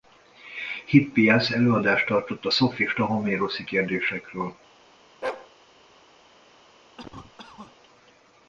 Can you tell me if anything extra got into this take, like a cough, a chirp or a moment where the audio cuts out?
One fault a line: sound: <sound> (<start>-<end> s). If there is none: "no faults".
sound: bark (5.2-5.5 s)
sound: cough (7.0-7.8 s)